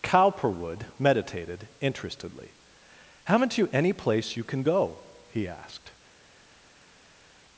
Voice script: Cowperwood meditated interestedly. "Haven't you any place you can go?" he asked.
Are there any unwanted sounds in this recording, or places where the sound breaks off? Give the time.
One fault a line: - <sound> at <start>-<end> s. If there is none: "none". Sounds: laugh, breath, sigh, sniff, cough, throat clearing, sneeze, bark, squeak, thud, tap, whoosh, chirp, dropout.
none